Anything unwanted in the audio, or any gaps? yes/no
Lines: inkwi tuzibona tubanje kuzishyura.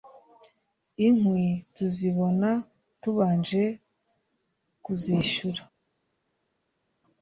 no